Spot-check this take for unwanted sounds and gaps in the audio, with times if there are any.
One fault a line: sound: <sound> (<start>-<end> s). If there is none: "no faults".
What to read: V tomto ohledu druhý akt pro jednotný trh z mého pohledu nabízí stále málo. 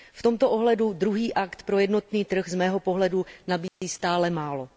sound: dropout (3.7-3.8 s)